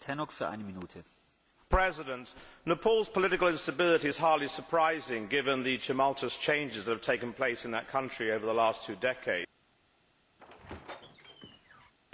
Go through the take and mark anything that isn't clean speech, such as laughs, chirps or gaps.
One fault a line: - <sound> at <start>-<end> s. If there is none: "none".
- squeak at 10.4-11.9 s